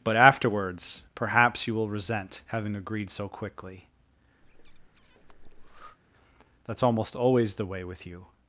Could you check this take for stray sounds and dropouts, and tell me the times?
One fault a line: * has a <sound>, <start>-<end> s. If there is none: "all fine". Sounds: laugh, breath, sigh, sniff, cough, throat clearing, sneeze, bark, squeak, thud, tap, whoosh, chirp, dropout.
* has a breath, 4.4-6.0 s